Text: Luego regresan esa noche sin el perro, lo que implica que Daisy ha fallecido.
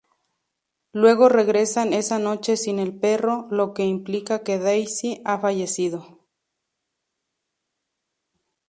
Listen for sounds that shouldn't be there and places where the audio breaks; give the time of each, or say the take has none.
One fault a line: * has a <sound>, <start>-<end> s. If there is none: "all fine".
all fine